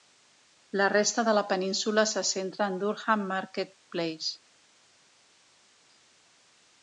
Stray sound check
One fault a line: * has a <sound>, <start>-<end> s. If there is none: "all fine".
all fine